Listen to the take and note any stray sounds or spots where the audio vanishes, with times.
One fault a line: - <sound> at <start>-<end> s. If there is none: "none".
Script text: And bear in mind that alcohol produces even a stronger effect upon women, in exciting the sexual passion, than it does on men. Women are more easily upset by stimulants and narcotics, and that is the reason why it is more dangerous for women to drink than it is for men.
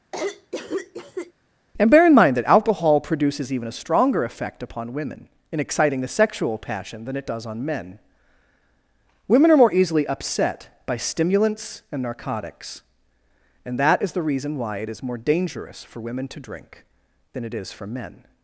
- cough at 0.1-1.3 s